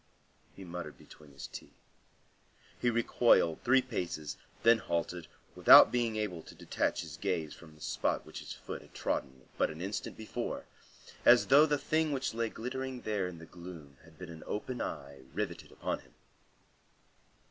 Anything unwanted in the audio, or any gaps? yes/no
no